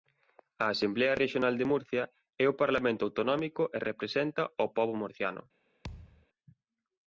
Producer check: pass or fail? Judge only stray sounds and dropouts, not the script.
fail